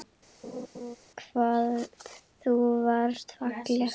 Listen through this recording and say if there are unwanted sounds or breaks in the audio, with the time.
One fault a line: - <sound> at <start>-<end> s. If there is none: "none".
- laugh at 0.4-1.0 s